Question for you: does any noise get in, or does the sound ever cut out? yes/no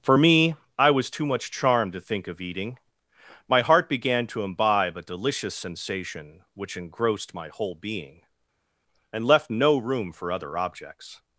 no